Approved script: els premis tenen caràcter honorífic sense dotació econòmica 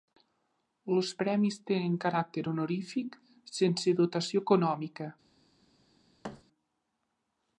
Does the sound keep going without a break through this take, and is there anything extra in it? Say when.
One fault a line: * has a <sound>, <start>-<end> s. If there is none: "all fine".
* has a thud, 6.2-6.4 s